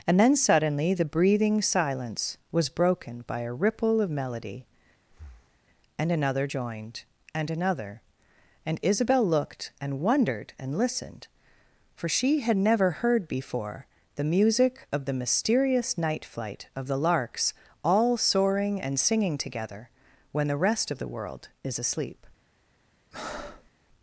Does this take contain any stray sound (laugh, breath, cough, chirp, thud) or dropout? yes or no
yes